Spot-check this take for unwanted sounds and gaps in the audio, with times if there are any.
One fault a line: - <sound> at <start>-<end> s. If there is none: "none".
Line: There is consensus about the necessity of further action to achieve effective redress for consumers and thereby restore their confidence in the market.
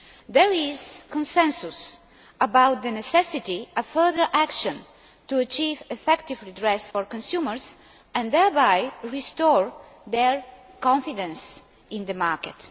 - dropout at 6.9-6.9 s